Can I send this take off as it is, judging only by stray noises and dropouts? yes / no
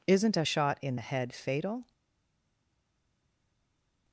yes